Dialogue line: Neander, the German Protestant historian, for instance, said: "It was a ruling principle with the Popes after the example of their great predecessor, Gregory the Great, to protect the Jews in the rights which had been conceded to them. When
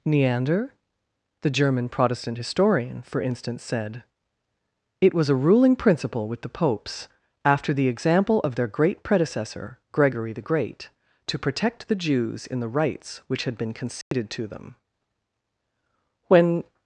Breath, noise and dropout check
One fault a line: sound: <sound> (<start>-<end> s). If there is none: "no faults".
sound: dropout (14.0-14.1 s)